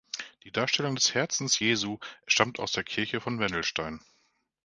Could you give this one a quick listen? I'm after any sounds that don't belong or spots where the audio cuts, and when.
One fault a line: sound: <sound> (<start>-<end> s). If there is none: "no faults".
no faults